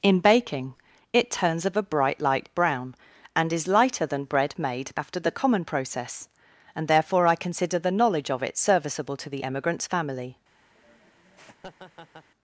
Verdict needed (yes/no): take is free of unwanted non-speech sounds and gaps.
no